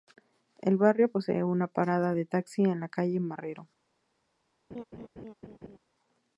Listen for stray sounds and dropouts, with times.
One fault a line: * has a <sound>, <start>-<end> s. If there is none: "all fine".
* has a laugh, 4.7-5.8 s